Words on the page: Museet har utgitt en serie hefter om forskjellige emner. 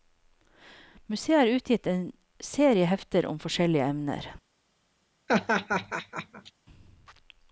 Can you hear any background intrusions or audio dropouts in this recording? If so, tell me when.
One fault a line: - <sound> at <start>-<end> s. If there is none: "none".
- laugh at 5.3-6.5 s